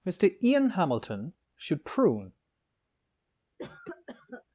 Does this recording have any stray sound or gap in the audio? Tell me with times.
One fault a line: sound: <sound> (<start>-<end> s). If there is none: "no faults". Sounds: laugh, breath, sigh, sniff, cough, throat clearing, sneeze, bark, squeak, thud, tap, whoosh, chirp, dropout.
sound: cough (3.6-4.4 s)